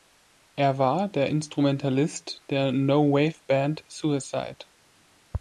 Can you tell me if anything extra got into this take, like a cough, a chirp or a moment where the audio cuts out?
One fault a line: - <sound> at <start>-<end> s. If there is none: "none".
none